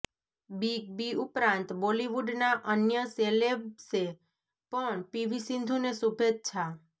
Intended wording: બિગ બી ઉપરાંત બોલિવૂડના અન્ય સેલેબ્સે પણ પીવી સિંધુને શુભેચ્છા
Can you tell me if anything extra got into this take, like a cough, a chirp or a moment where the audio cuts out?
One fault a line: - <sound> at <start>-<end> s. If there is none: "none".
none